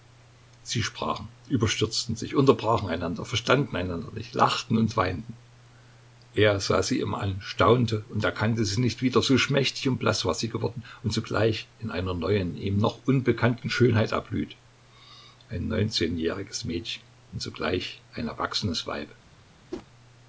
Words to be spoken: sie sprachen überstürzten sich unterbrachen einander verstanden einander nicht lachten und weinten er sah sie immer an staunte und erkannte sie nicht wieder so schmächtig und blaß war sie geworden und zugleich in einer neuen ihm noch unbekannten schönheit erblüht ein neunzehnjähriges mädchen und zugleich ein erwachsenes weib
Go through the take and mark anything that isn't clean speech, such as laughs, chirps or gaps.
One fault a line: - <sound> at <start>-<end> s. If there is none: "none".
- whoosh at 19.7-19.9 s